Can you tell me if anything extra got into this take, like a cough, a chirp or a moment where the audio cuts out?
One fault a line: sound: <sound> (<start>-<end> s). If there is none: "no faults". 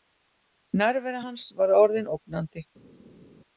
no faults